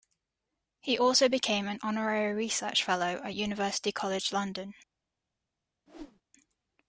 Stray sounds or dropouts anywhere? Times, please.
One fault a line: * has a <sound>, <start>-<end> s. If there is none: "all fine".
* has a whoosh, 5.9-6.2 s